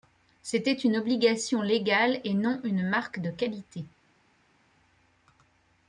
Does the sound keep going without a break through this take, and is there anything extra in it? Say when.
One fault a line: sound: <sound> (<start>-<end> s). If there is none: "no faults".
no faults